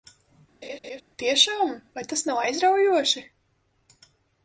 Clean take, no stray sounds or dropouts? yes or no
no